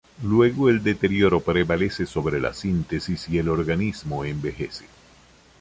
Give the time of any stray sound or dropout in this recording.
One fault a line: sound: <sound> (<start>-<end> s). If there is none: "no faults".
no faults